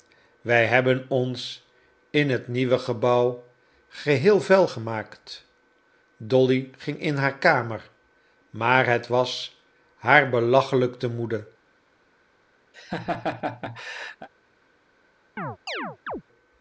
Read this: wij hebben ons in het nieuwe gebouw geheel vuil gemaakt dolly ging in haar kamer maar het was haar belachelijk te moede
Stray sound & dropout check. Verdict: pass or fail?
fail